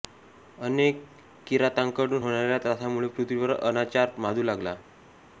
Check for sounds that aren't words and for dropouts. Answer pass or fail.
pass